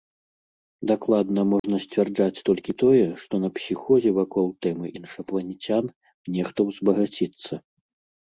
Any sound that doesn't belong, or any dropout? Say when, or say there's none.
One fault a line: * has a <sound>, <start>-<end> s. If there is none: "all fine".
* has a dropout, 1.6-1.6 s